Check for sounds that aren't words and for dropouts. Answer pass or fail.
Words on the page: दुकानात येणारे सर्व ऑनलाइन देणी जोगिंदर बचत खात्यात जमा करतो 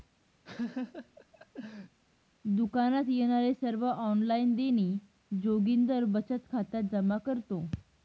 fail